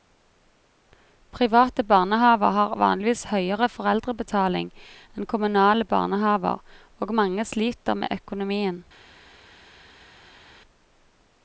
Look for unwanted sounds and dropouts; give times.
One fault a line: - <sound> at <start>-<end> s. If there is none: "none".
none